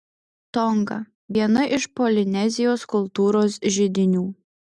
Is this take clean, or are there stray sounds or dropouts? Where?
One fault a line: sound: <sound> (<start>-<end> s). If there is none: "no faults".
no faults